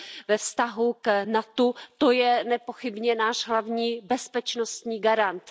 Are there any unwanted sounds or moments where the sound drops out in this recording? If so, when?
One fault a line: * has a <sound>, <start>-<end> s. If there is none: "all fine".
all fine